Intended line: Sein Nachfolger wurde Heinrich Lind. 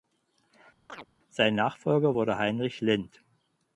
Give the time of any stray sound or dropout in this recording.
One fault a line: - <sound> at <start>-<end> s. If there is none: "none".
- chirp at 0.9-1.1 s